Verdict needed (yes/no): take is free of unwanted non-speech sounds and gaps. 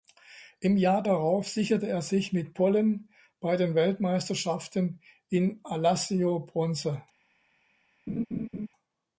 no